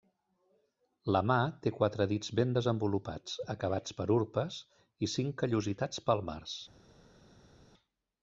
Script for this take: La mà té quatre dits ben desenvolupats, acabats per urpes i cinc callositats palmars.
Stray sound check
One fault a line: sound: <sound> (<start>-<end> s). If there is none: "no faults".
no faults